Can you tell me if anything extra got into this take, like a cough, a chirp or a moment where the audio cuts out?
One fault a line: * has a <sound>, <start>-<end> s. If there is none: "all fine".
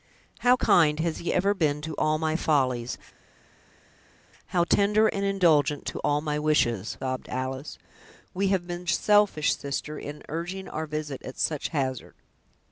all fine